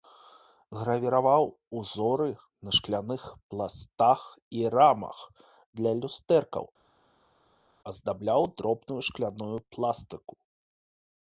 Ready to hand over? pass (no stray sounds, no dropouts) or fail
pass